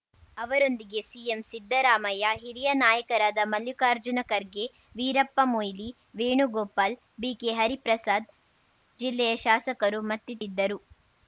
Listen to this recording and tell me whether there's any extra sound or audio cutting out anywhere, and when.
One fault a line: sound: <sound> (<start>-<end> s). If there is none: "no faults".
no faults